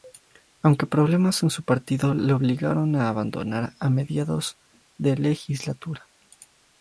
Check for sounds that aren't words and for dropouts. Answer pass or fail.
pass